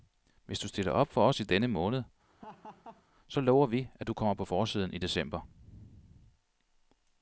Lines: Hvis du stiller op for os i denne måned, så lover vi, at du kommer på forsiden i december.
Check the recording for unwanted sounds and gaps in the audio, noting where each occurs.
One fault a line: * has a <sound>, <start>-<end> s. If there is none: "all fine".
* has a laugh, 2.3-3.0 s